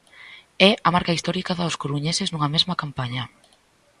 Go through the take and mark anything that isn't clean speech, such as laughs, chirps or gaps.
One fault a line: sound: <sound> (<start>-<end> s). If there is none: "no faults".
no faults